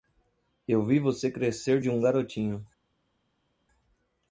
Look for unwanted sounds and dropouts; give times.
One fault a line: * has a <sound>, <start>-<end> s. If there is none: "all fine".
all fine